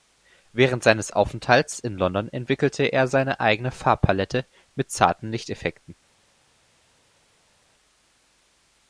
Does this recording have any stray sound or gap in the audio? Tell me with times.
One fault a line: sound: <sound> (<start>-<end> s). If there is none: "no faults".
no faults